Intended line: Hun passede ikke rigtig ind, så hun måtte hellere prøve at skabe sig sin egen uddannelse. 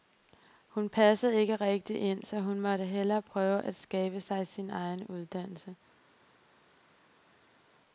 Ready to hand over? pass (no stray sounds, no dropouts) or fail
pass